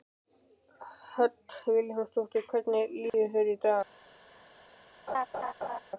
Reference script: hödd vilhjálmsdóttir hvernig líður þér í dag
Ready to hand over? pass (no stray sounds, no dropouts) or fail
fail